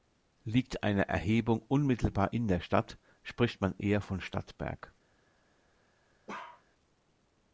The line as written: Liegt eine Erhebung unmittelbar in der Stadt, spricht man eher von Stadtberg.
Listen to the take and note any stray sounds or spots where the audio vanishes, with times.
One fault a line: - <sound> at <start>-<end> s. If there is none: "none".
- bark at 6.3-6.6 s